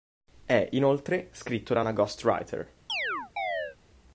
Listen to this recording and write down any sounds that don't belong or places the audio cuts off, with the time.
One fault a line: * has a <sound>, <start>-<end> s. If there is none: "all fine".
* has a chirp, 2.9-3.8 s